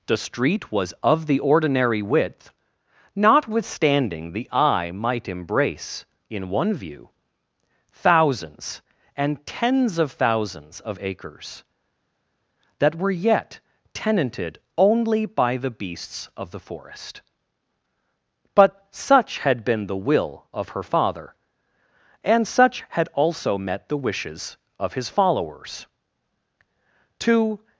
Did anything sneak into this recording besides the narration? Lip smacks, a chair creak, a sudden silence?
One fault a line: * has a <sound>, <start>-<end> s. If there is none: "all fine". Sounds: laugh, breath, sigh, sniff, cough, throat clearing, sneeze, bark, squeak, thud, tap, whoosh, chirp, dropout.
all fine